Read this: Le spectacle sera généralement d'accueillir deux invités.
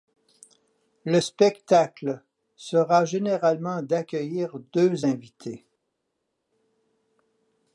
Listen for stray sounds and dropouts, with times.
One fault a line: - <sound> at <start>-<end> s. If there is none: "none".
none